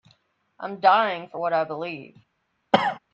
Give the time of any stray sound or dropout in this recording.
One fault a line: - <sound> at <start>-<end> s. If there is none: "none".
- cough at 2.7-3.0 s